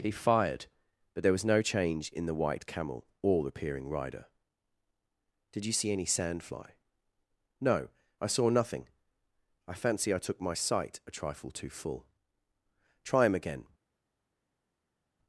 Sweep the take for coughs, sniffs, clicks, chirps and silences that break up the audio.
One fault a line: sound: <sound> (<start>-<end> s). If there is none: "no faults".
no faults